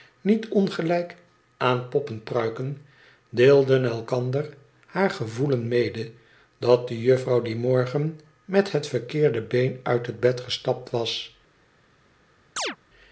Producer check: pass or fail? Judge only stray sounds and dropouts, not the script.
fail